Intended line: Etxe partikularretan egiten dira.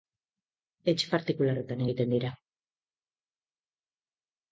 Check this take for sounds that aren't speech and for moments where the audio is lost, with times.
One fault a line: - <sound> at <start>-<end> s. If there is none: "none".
none